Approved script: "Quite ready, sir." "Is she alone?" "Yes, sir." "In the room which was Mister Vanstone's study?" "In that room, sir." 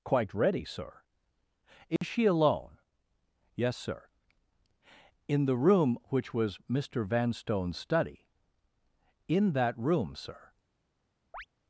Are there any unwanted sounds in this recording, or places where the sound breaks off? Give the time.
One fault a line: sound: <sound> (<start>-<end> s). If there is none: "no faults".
sound: dropout (2.0-2.0 s)
sound: chirp (11.3-11.5 s)